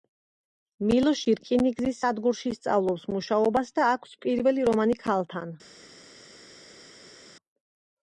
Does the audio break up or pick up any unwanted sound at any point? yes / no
no